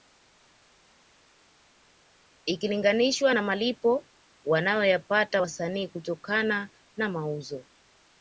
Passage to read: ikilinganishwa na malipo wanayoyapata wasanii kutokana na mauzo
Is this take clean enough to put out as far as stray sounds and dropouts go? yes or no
yes